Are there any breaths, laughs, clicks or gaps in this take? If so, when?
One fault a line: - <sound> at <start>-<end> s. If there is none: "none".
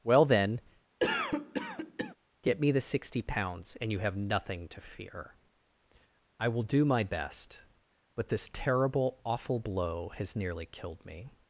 - cough at 1.0-2.2 s